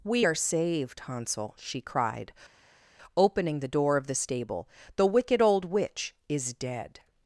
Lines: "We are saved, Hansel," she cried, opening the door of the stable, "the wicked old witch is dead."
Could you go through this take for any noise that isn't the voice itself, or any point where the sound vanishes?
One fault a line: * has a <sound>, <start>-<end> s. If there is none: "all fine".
all fine